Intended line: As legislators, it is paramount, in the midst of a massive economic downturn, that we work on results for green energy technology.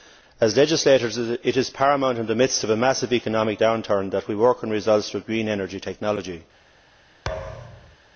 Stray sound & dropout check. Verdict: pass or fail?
fail